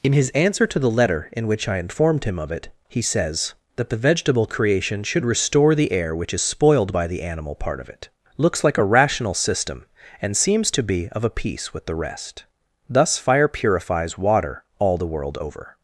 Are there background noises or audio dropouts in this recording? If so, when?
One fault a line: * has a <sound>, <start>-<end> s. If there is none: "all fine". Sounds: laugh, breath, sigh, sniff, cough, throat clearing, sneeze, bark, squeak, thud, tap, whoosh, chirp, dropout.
all fine